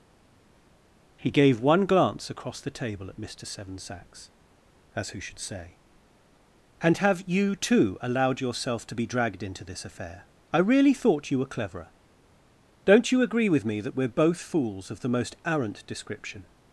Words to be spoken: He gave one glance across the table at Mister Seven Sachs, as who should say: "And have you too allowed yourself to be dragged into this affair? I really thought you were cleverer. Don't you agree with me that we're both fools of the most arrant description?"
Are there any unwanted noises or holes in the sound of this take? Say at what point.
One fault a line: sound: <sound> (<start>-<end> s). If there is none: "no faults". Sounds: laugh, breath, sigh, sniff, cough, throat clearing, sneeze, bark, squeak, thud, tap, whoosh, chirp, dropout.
no faults